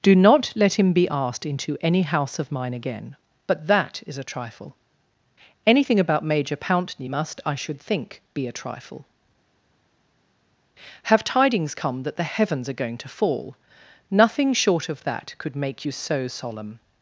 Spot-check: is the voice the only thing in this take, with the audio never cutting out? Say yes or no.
yes